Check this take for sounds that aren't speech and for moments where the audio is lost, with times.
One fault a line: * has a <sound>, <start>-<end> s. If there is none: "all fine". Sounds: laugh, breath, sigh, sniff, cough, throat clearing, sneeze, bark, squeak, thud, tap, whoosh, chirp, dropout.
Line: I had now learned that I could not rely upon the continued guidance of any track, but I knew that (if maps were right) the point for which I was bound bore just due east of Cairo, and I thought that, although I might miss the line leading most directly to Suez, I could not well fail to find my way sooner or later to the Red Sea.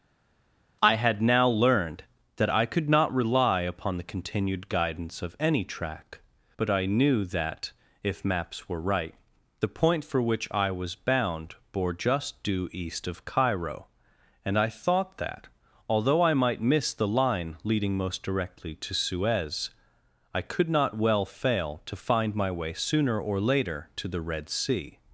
all fine